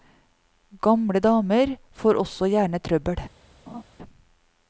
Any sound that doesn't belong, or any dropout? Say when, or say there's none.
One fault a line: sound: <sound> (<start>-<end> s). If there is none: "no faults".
sound: laugh (3.7-3.8 s)